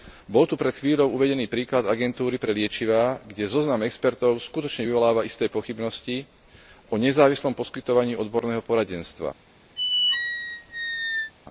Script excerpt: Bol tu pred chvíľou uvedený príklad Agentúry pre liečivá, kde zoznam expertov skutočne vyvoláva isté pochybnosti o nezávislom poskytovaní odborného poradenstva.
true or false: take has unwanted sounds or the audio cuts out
true